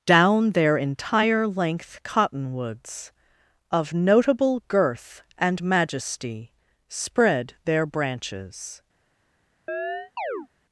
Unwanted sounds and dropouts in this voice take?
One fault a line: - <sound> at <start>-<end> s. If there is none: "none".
- chirp at 9.7-10.5 s